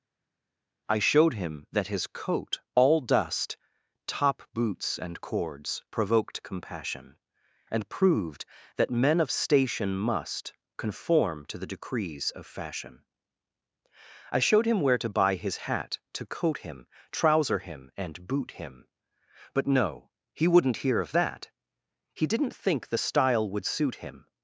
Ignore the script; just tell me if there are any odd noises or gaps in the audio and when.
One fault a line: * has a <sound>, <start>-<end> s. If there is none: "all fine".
all fine